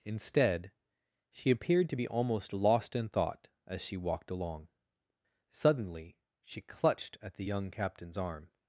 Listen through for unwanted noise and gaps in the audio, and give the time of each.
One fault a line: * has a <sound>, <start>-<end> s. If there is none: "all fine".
all fine